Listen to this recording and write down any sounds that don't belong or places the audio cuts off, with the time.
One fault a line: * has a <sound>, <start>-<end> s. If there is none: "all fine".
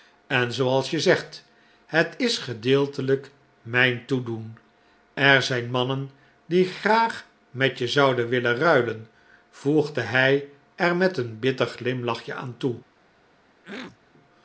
* has a throat clearing, 13.6-14.0 s